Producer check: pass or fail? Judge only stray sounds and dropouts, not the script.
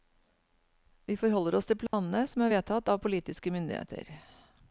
fail